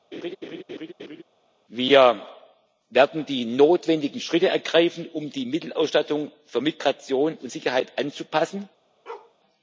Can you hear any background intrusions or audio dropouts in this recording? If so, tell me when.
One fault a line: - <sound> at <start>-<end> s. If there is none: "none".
- laugh at 0.1-1.2 s
- bark at 9.1-9.4 s